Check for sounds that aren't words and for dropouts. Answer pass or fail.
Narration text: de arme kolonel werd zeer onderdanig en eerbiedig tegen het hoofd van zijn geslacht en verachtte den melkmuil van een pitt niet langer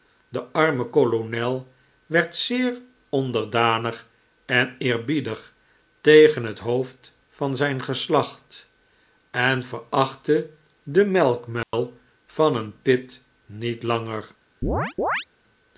fail